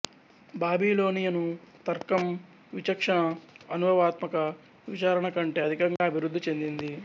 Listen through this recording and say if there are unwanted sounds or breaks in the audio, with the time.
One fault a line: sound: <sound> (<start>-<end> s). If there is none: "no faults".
sound: dropout (6.0-6.0 s)